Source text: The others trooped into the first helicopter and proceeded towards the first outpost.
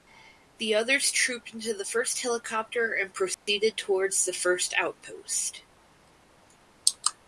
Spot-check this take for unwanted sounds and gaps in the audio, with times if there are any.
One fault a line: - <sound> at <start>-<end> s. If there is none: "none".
- dropout at 3.3-3.5 s